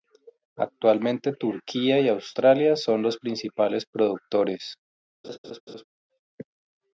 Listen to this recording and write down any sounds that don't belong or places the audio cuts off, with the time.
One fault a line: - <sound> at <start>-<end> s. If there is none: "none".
- laugh at 5.2-5.8 s